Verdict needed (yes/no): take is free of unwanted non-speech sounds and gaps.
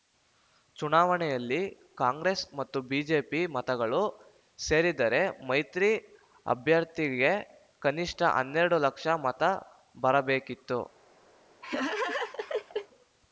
no